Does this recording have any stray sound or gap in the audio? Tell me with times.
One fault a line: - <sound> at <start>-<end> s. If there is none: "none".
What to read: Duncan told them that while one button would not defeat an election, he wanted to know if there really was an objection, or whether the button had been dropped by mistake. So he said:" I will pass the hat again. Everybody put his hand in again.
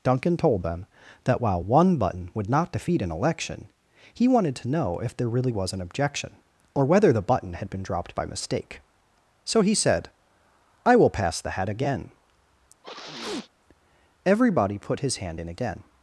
- sneeze at 12.8-13.5 s